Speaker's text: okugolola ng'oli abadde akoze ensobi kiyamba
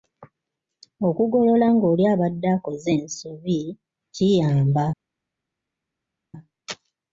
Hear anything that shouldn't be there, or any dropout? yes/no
no